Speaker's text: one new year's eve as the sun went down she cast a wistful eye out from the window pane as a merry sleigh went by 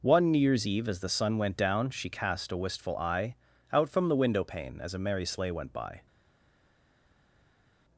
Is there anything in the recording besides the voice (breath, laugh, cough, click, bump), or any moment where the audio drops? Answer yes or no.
no